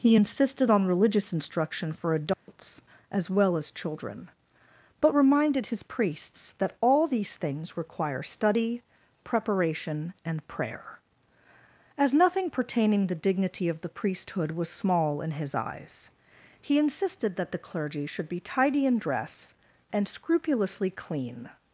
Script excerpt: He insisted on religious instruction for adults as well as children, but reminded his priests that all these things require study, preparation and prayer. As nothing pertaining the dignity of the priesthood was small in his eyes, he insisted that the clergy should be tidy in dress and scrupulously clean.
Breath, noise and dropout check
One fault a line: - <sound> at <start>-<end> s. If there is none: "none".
- dropout at 2.3-2.5 s